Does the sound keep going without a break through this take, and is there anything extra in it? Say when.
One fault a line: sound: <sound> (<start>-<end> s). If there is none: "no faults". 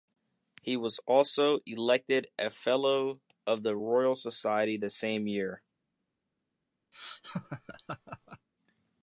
sound: laugh (6.9-8.5 s)